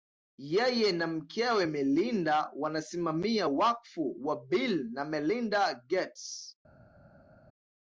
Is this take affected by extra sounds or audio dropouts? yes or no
no